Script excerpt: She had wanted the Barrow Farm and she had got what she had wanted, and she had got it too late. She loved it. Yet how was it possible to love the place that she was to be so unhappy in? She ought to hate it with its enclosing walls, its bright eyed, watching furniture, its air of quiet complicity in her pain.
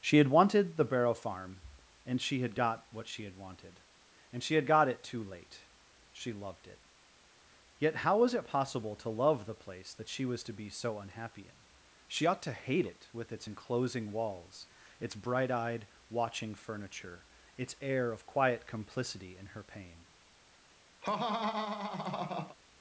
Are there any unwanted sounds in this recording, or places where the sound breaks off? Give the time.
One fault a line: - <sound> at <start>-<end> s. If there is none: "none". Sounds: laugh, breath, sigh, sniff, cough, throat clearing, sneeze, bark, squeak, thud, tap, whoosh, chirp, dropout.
- laugh at 21.0-22.6 s